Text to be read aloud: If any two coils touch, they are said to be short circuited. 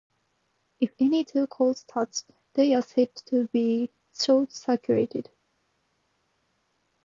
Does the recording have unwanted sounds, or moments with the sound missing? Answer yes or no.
no